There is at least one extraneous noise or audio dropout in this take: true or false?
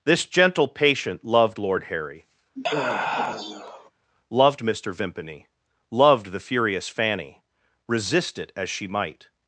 true